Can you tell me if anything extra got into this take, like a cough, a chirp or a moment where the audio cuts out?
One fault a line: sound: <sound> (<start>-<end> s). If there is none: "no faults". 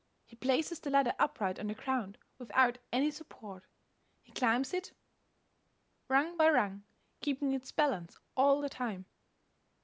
no faults